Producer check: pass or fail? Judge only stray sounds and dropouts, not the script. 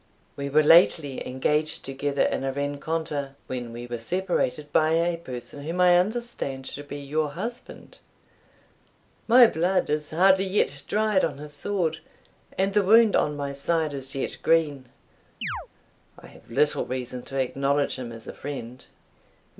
fail